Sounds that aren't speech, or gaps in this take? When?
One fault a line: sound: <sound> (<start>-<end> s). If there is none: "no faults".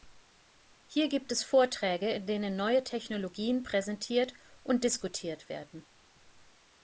no faults